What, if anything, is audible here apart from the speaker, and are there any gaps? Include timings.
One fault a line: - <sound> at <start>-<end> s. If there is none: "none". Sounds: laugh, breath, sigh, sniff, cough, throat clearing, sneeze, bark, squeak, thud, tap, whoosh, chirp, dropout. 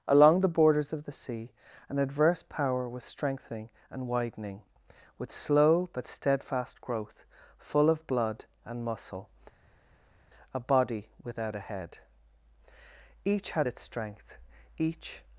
none